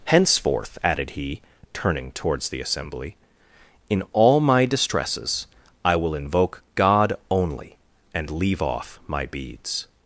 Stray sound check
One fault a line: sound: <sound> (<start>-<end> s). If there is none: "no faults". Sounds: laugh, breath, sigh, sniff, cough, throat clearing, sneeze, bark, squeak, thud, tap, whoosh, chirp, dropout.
no faults